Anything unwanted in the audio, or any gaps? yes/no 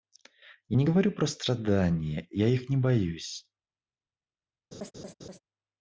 yes